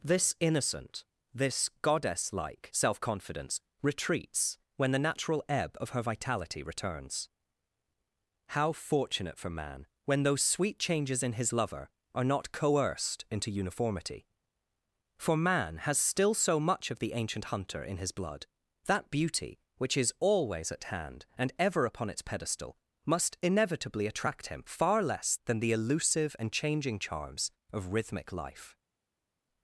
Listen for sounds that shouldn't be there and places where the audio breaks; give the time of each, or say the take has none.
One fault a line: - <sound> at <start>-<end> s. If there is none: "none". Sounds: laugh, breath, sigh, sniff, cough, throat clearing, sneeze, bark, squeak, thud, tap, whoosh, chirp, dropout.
none